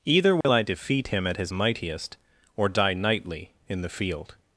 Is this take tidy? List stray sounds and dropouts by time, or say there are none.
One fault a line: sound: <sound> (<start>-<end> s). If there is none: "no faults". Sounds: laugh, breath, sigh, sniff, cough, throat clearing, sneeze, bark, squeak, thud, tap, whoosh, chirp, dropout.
sound: dropout (0.4-0.4 s)